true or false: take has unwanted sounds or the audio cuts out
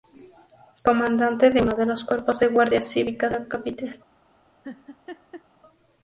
true